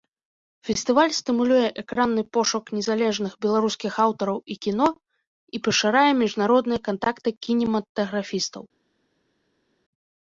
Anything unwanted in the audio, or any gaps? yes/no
no